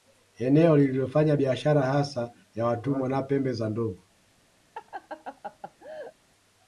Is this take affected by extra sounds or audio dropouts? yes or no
yes